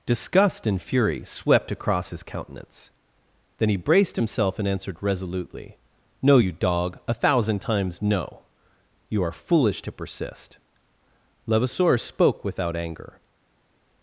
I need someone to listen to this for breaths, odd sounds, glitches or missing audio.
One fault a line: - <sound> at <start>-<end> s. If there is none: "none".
none